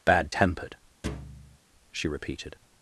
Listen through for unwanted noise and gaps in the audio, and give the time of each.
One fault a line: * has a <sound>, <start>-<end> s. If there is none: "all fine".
* has a thud, 1.0-1.6 s